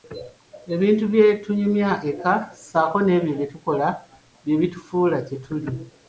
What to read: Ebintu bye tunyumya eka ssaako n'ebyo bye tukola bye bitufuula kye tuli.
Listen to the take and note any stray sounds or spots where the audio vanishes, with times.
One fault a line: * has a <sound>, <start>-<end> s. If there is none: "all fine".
all fine